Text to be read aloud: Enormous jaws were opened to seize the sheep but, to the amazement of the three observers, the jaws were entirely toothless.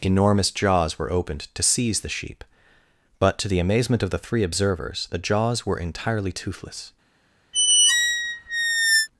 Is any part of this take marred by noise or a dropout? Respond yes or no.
yes